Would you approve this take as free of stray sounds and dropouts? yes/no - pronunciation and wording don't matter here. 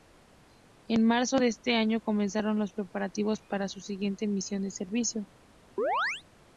no